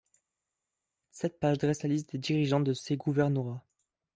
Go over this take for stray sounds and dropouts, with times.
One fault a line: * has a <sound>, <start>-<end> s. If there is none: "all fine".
all fine